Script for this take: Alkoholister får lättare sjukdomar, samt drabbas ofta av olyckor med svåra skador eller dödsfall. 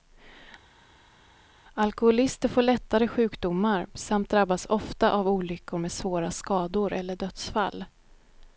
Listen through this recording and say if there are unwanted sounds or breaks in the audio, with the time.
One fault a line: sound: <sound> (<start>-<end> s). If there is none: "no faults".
no faults